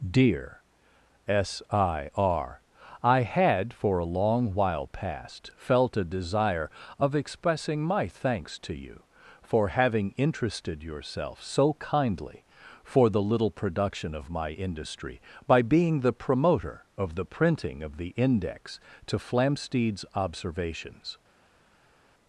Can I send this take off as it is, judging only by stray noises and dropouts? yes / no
yes